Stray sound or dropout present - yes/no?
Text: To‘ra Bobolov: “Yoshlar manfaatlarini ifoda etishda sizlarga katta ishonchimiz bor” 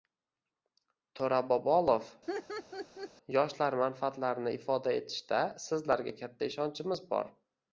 yes